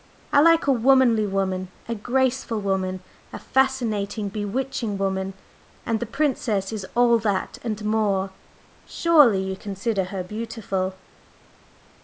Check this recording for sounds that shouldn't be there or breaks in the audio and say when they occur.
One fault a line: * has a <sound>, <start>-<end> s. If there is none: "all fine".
all fine